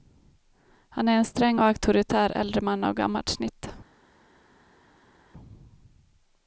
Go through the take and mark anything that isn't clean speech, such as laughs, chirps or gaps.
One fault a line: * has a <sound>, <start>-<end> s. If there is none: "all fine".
all fine